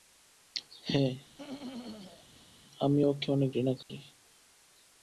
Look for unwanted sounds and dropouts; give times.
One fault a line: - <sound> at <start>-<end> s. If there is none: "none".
- throat clearing at 1.4-2.5 s
- dropout at 3.8-3.9 s